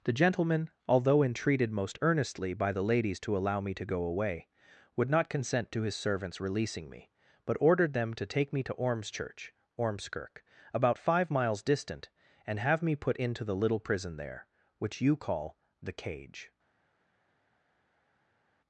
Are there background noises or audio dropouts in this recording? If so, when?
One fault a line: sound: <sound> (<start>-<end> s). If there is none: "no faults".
no faults